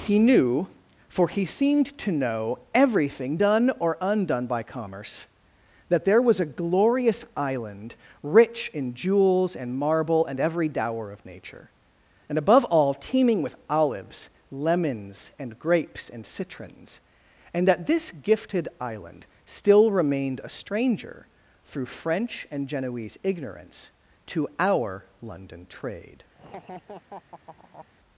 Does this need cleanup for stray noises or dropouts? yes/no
yes